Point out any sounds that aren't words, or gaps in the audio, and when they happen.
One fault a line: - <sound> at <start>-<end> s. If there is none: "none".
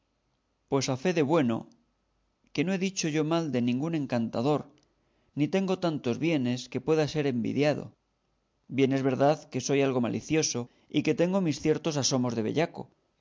none